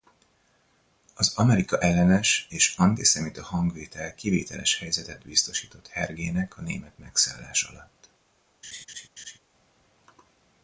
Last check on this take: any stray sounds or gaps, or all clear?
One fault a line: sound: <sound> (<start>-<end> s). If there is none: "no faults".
sound: laugh (8.6-9.4 s)